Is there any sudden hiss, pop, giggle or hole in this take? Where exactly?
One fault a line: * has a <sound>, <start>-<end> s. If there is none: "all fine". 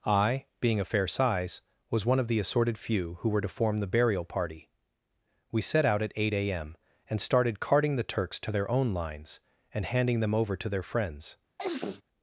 * has a sneeze, 11.6-12.0 s